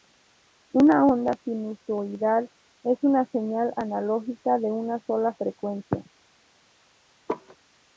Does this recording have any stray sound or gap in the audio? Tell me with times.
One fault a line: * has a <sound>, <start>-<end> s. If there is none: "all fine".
* has a laugh, 7.3-7.6 s